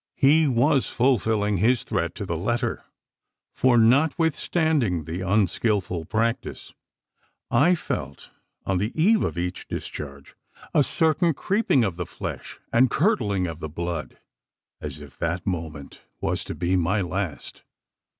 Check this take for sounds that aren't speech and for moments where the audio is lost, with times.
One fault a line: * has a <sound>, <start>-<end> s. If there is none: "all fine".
all fine